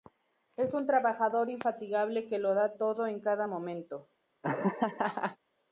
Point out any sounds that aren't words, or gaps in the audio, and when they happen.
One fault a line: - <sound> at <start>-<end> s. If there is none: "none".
- laugh at 4.4-5.4 s